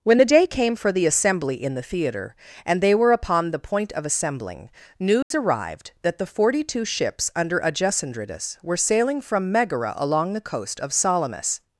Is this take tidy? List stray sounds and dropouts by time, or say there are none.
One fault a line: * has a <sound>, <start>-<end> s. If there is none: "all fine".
* has a dropout, 5.2-5.3 s